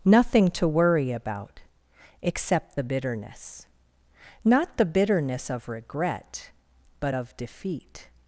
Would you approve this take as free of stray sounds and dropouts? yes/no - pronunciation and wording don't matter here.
yes